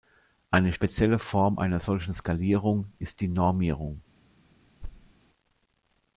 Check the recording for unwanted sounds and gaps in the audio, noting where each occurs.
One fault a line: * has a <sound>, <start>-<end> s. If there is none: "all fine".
* has a thud, 4.8-5.1 s